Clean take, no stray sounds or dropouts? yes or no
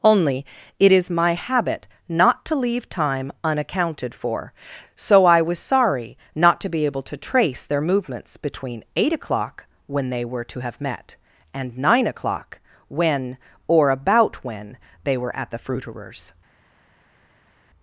yes